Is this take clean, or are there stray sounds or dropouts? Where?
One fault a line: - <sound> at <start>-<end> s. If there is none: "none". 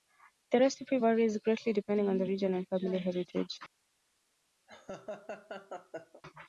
- laugh at 4.7-6.2 s